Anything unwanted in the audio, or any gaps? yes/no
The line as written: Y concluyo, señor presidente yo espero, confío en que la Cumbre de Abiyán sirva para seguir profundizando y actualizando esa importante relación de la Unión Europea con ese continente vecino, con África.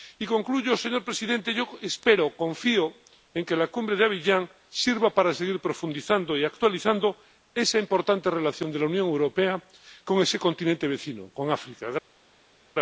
no